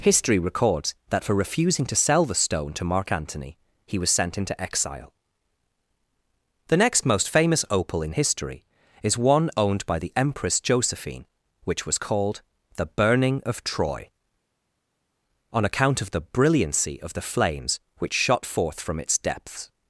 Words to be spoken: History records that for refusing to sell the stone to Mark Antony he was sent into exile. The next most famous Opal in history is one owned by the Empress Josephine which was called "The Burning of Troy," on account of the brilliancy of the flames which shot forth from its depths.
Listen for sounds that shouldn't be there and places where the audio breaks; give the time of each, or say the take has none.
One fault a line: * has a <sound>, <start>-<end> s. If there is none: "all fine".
all fine